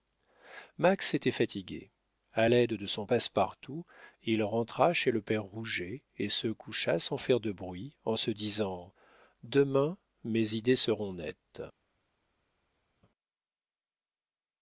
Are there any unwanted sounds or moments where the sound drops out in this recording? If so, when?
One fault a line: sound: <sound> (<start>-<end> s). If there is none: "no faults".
no faults